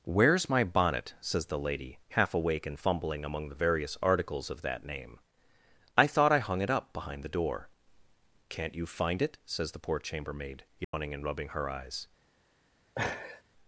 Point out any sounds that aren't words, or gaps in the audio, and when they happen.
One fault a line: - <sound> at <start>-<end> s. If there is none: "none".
- dropout at 10.8-10.9 s
- laugh at 13.0-13.4 s